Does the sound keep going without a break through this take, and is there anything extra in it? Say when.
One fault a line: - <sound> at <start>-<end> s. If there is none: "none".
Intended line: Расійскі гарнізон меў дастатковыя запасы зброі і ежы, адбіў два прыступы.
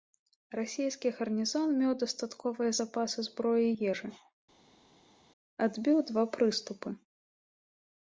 none